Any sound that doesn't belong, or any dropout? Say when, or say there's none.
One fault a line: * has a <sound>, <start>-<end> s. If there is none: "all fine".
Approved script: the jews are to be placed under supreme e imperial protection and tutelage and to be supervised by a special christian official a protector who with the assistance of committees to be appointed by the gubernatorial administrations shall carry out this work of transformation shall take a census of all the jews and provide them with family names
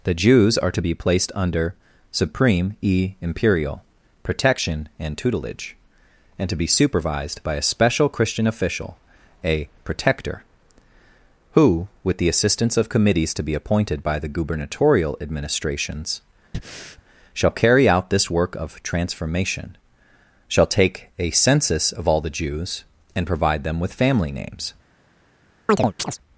* has a breath, 16.5-17.0 s
* has a chirp, 25.7-26.2 s